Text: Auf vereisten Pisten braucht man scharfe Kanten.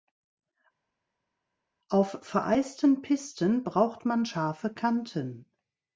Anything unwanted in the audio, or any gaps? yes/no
no